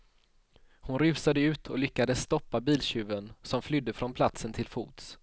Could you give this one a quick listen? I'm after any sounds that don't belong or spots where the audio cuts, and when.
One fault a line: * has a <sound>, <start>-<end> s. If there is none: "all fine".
all fine